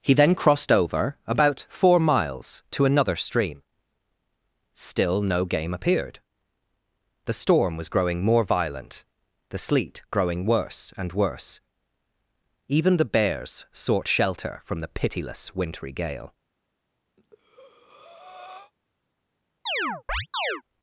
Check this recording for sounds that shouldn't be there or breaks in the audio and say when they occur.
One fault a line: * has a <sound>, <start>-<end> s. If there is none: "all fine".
* has a breath, 17.2-18.7 s
* has a chirp, 19.7-20.6 s